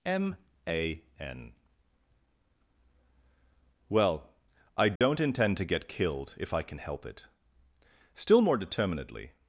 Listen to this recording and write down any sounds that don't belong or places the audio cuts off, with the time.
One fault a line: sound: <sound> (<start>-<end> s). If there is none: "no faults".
sound: dropout (5.0-5.0 s)